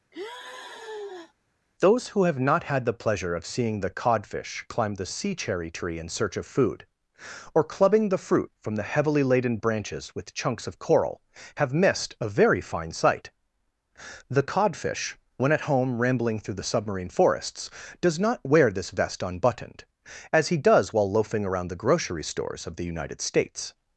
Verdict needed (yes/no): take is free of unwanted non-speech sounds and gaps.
no